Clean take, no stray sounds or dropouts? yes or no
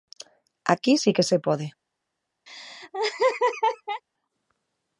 no